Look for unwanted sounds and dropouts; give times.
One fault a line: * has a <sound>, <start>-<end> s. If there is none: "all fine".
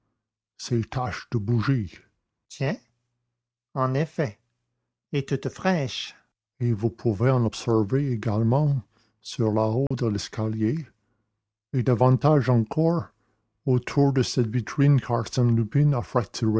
* has a dropout, 9.9-9.9 s